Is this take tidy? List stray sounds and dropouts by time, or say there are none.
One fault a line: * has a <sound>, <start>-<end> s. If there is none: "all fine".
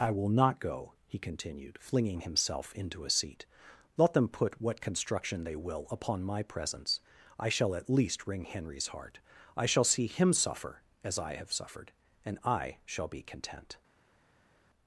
all fine